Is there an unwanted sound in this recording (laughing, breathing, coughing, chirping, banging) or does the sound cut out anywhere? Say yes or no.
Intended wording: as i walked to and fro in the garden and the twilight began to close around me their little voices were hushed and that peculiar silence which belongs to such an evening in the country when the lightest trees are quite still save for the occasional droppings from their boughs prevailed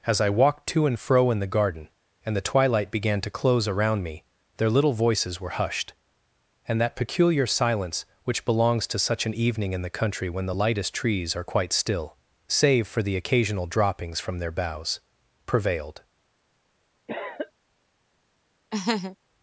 yes